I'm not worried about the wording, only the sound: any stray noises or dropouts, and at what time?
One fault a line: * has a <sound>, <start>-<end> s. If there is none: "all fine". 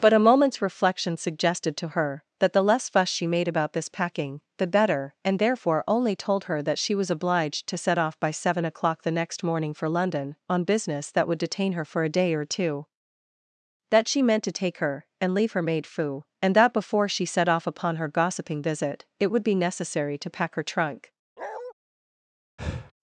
* has a bark, 21.4-21.7 s
* has a breath, 22.6-22.9 s